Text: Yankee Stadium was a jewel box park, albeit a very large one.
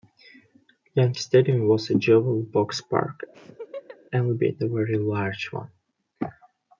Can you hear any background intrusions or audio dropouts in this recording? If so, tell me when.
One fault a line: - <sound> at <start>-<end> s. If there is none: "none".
- laugh at 3.3-4.0 s